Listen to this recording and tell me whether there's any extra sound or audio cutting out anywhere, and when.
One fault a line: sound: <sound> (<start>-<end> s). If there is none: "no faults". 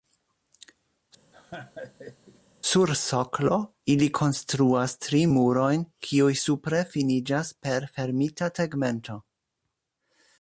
sound: laugh (1.3-2.4 s)